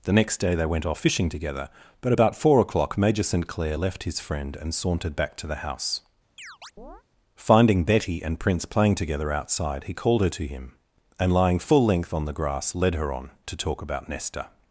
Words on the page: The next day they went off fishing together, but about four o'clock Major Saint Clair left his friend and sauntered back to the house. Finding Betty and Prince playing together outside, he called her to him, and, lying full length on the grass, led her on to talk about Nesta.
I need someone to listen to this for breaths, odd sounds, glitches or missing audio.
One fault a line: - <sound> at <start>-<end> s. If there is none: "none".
- chirp at 6.4-7.0 s